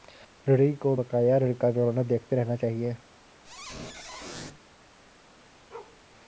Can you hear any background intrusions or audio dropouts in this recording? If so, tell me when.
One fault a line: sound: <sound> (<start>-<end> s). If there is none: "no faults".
sound: squeak (3.4-4.6 s)
sound: bark (5.7-6.0 s)